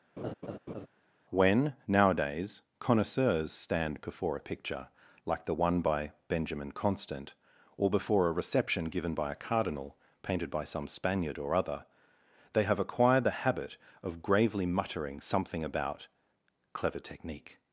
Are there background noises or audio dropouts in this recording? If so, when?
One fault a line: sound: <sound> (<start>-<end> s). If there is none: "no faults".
sound: laugh (0.2-0.9 s)